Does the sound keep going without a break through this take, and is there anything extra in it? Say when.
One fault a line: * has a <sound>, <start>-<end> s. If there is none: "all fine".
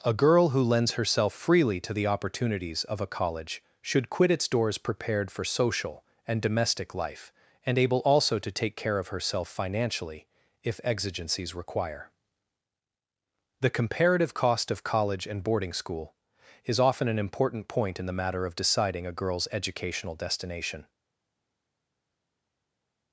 all fine